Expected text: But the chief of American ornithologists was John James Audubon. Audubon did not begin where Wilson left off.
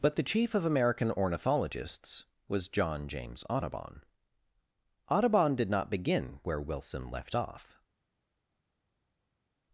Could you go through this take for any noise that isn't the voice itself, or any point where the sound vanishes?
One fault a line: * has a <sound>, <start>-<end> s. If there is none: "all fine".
all fine